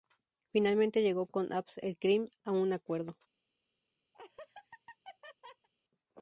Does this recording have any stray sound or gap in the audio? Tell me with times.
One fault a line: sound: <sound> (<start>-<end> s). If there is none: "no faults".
sound: laugh (4.1-5.7 s)